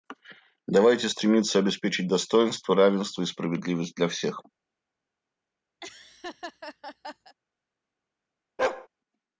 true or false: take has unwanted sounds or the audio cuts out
true